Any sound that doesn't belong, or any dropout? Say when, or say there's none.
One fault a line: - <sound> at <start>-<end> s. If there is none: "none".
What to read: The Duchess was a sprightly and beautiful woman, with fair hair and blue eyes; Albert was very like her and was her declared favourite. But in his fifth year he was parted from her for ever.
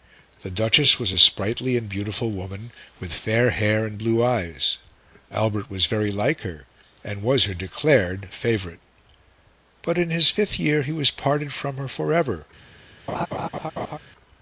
- laugh at 13.1-14.0 s